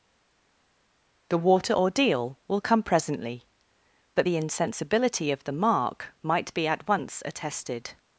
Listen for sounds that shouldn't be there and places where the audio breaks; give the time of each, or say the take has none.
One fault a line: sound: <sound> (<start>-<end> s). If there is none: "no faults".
no faults